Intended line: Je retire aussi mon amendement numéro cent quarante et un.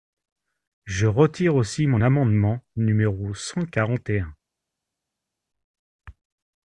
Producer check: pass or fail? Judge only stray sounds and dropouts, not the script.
pass